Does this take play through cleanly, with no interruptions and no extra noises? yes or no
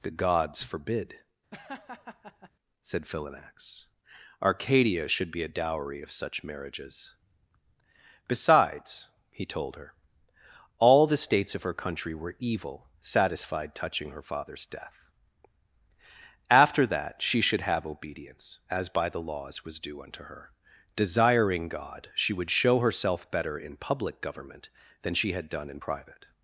no